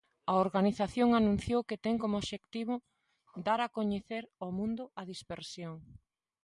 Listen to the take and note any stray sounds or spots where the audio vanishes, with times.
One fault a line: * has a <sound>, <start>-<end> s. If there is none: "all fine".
all fine